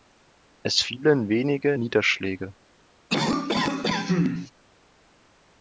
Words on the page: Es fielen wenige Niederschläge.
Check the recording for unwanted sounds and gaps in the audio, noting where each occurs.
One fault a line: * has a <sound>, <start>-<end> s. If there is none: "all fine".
* has a cough, 3.1-4.5 s